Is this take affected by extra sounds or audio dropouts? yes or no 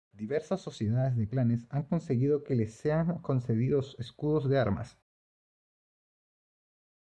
no